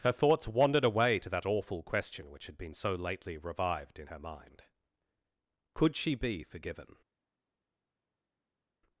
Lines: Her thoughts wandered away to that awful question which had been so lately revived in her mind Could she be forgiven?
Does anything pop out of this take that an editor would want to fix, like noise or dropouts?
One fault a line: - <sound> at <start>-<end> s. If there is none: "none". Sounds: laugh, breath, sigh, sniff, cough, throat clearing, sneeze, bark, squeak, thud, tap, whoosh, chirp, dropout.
none